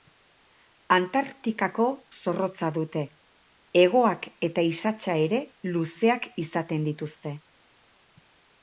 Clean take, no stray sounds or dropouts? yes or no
yes